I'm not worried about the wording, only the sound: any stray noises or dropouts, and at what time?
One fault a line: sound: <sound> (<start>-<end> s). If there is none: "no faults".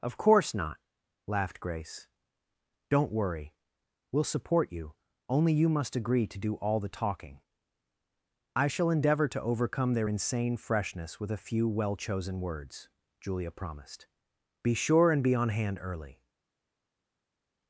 no faults